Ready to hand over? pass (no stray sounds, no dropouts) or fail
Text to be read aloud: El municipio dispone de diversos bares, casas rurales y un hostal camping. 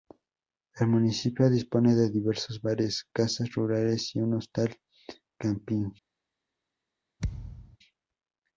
fail